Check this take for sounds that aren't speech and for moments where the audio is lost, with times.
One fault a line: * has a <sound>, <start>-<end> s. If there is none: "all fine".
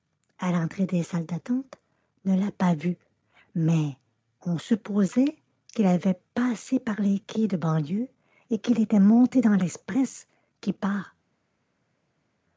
all fine